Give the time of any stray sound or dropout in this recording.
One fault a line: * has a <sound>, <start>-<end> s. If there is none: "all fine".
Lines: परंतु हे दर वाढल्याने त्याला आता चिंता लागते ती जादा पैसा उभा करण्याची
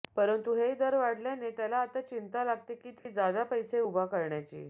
* has a dropout, 3.0-3.1 s